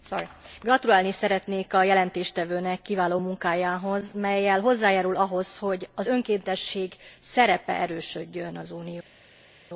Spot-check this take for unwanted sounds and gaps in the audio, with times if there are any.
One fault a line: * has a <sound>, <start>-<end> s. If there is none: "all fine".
all fine